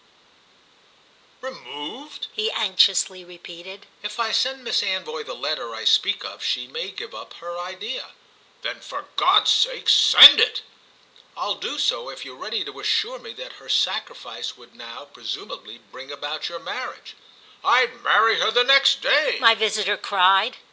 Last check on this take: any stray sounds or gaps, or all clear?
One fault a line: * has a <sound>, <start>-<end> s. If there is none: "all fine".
all fine